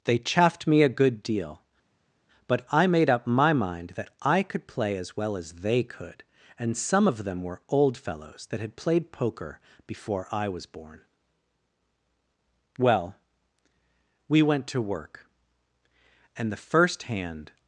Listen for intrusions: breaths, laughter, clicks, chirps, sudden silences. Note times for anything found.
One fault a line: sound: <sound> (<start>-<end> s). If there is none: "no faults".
no faults